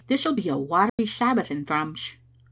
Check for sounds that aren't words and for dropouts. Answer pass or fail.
fail